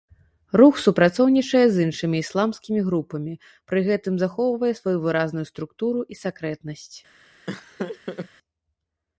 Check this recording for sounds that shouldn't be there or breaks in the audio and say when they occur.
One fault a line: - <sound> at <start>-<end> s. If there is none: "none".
- laugh at 7.5-8.3 s